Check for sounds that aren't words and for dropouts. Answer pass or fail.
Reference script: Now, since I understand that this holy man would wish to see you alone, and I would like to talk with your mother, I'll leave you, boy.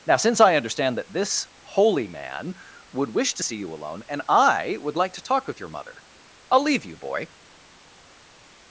pass